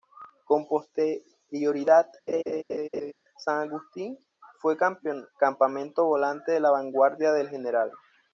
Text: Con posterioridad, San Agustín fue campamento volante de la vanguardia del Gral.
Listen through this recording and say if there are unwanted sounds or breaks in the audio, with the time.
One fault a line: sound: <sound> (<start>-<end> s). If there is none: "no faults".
sound: laugh (2.3-3.1 s)